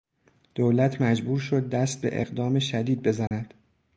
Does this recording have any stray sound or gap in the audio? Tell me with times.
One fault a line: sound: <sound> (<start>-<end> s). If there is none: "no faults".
sound: dropout (3.3-3.3 s)